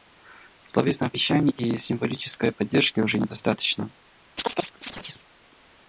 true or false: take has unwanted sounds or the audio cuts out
true